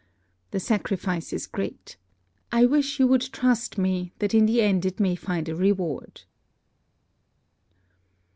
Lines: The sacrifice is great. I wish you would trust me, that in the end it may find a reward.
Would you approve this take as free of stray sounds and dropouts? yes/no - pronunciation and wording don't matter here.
yes